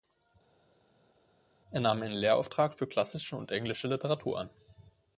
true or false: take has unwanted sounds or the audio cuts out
false